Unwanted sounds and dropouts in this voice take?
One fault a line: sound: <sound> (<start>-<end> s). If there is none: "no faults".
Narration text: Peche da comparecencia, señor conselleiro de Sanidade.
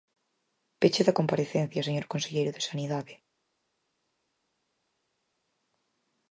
no faults